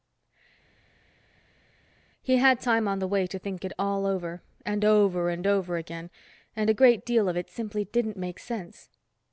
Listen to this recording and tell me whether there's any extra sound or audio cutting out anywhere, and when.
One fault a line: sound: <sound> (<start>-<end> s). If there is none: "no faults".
no faults